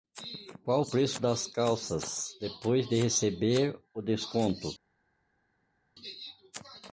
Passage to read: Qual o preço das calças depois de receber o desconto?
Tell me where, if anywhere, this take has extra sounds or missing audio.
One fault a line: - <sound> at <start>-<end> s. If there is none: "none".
none